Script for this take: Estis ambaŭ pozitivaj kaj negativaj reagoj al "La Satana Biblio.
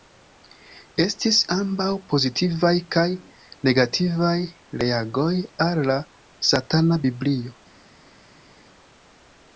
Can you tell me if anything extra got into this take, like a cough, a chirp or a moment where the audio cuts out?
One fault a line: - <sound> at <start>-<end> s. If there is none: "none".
none